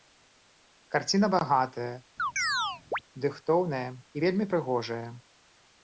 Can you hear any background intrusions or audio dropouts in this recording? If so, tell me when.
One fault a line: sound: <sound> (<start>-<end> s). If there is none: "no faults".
sound: chirp (2.2-3.0 s)